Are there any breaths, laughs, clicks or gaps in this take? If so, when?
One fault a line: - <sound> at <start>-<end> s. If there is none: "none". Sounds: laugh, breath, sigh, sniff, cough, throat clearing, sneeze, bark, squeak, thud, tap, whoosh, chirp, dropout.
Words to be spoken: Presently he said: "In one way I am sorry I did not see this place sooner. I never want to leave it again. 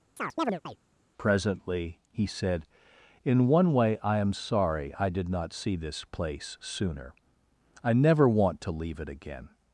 - chirp at 0.2-0.8 s